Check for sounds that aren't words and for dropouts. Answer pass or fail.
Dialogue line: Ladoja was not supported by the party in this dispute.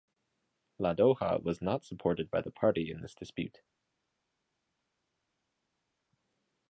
pass